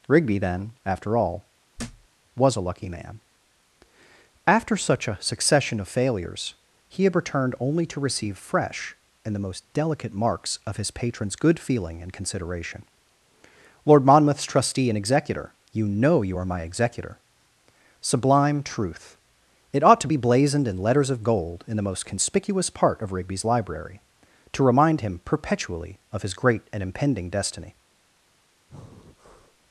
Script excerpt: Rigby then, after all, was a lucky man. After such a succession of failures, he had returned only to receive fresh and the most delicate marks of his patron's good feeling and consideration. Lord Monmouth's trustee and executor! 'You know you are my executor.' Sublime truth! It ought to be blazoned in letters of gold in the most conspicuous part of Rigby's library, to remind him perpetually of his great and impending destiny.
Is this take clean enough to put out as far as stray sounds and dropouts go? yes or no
no